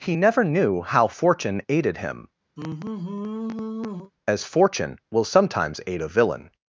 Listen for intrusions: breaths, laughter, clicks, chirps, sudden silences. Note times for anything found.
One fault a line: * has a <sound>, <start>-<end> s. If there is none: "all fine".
* has a sigh, 2.6-4.1 s